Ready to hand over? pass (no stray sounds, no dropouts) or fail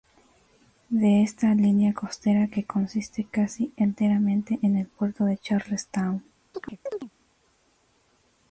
fail